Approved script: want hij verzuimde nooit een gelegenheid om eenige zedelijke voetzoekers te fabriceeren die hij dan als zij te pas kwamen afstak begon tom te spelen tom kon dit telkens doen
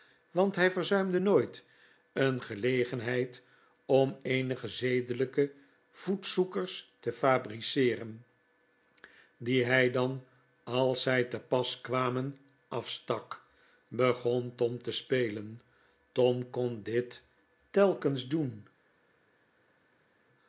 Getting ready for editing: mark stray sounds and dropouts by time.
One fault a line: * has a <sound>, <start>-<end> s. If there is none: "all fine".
all fine